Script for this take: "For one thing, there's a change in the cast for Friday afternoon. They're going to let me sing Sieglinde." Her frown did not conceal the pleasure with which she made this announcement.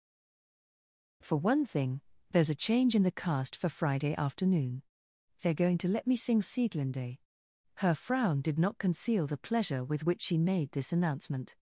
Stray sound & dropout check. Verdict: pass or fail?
pass